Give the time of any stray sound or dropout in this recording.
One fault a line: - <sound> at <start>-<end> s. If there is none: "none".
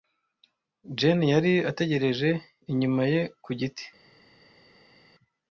none